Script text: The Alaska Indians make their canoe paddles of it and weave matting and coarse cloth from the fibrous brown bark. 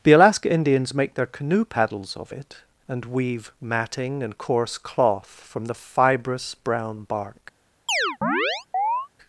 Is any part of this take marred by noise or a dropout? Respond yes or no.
yes